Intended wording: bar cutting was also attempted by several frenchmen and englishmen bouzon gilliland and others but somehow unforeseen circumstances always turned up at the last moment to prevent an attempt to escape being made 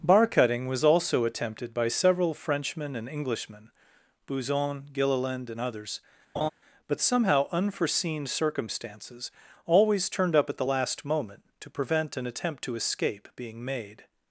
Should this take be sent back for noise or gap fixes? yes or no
yes